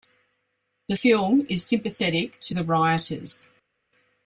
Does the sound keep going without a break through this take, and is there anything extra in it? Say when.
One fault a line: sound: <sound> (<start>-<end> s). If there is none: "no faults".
no faults